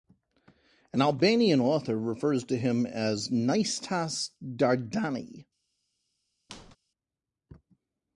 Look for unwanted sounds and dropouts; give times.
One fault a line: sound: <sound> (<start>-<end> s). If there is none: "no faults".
sound: squeak (6.5-6.8 s)